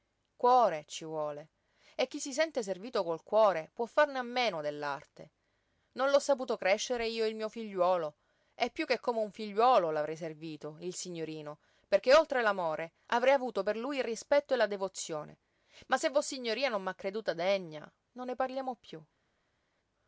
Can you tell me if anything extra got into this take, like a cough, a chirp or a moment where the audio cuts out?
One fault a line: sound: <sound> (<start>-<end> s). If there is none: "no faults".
no faults